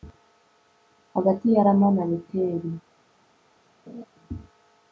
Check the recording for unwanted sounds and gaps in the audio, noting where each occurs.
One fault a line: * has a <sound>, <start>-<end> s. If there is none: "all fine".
* has a laugh, 3.9-4.0 s